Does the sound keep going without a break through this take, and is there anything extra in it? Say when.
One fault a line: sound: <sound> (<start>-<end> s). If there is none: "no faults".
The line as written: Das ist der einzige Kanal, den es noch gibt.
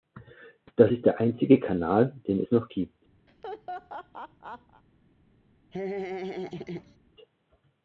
sound: laugh (3.3-4.8 s)
sound: laugh (5.7-7.0 s)